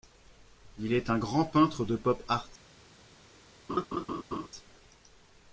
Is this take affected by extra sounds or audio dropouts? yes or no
yes